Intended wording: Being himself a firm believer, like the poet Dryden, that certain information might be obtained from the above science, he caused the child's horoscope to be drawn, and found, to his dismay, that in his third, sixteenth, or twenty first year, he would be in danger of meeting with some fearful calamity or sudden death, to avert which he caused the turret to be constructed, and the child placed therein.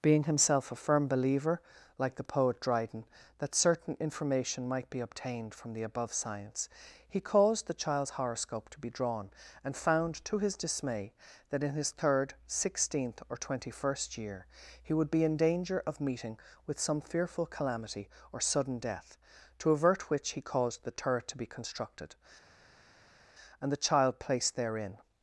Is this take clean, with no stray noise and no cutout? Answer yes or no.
yes